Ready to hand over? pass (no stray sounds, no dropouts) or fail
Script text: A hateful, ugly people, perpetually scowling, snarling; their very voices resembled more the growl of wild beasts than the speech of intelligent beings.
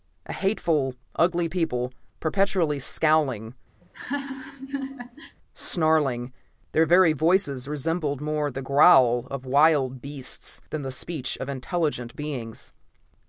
fail